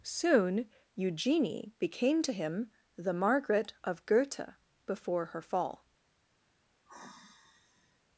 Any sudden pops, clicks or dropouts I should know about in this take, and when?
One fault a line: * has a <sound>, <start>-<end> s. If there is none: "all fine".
* has a sigh, 6.9-8.0 s